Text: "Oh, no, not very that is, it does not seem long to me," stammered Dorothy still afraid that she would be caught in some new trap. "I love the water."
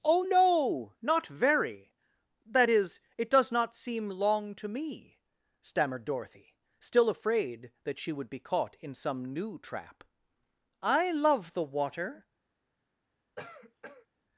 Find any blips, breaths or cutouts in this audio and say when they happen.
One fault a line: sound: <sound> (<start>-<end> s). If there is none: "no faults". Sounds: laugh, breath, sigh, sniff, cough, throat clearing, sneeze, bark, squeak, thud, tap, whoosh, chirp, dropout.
sound: cough (13.4-14.1 s)